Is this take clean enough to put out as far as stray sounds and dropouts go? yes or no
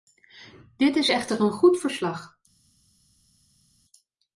yes